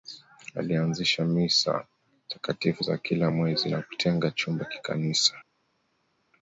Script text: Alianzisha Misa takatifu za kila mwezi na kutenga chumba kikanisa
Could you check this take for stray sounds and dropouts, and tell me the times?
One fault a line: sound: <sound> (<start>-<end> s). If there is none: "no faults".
no faults